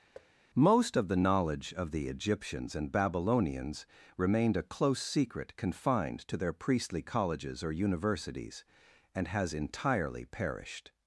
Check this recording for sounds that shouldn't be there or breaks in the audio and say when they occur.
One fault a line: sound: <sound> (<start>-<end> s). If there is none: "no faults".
sound: thud (0.1-0.3 s)